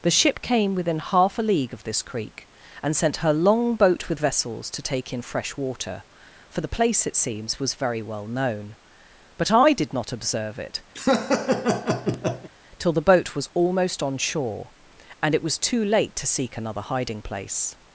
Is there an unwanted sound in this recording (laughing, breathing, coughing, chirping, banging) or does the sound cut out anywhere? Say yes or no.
yes